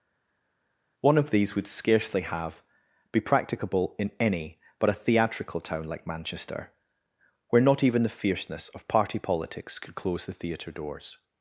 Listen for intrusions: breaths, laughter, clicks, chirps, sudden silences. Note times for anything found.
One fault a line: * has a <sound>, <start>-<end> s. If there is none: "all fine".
all fine